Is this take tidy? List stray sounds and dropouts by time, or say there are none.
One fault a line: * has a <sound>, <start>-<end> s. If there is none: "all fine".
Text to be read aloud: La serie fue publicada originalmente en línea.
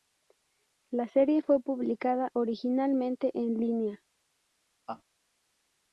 * has a laugh, 4.9-5.0 s